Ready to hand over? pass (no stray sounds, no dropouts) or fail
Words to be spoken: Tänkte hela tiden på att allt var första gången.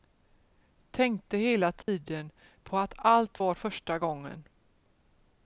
fail